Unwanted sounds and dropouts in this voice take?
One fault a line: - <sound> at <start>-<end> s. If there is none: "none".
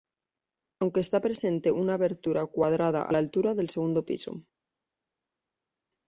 none